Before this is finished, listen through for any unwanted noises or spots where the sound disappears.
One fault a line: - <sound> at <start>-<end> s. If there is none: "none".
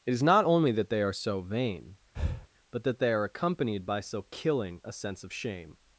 - breath at 2.2-2.5 s